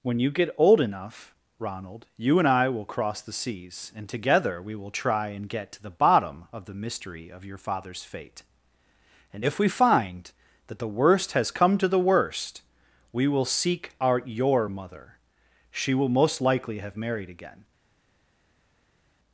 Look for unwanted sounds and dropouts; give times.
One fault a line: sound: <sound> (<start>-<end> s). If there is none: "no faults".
no faults